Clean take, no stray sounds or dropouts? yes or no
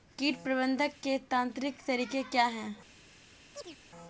no